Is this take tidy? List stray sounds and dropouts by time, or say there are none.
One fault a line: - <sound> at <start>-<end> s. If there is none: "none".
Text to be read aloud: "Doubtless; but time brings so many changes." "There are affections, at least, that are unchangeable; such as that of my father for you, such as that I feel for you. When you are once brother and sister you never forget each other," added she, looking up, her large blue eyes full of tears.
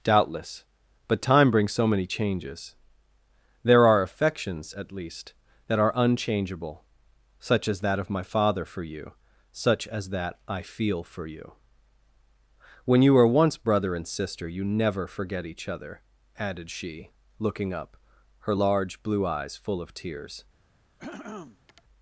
- throat clearing at 21.0-21.8 s